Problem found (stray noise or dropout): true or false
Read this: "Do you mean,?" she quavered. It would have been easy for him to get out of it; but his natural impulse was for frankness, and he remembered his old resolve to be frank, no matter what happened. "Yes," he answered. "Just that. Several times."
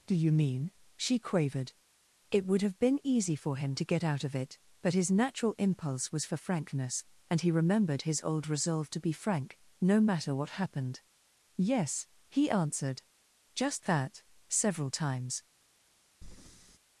true